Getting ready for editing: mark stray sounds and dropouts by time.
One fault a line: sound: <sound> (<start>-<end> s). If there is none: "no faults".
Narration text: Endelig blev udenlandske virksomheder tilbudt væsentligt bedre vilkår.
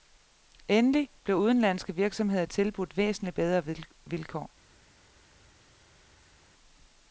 no faults